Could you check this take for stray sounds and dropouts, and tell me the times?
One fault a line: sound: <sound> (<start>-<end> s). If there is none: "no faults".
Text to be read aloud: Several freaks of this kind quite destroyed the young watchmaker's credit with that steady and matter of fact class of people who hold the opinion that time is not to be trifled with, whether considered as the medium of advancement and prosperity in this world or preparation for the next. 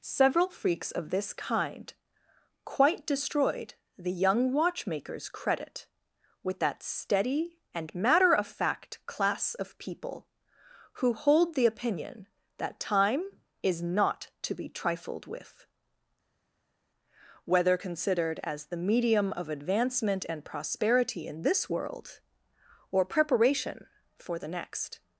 no faults